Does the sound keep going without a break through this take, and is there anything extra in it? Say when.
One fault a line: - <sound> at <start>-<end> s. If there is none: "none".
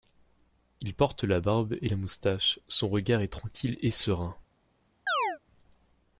- chirp at 5.1-5.4 s